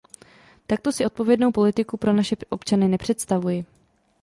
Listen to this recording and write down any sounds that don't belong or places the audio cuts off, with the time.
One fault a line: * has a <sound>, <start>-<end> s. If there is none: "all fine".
all fine